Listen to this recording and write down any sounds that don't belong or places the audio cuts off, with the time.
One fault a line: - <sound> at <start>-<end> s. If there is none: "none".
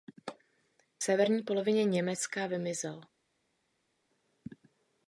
none